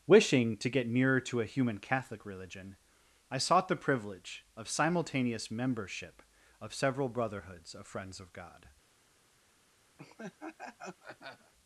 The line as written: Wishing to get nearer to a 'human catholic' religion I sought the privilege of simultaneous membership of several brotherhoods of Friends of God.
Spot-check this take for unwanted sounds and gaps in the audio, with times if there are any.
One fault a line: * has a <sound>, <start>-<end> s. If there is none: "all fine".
* has a laugh, 10.0-11.5 s